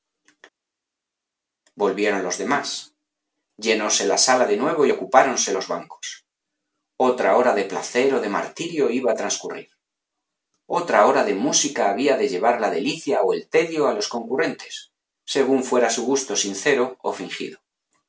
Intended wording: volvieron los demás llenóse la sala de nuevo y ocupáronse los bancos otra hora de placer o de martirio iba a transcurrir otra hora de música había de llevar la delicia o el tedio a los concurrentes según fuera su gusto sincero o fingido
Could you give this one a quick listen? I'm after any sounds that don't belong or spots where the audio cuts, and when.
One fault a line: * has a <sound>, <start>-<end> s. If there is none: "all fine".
all fine